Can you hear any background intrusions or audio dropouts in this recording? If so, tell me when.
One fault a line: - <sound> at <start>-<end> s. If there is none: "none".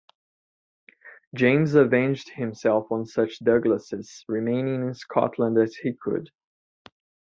none